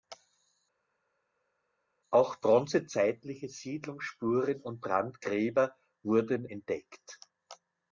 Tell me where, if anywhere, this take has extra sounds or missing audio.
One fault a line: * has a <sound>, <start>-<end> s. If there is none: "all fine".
all fine